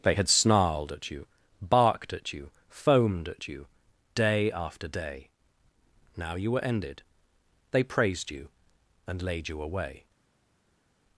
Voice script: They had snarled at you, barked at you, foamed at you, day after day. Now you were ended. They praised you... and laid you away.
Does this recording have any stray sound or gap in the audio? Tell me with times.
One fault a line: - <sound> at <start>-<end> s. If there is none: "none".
none